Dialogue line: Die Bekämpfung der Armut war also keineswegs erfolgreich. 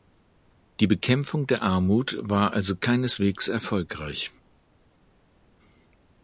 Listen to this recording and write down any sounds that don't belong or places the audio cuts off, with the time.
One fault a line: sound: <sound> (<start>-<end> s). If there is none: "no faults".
no faults